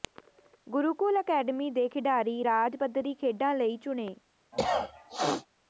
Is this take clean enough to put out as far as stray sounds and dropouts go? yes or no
no